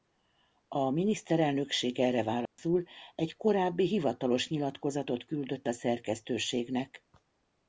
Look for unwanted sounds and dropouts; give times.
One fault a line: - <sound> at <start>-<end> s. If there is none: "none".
- dropout at 2.5-2.6 s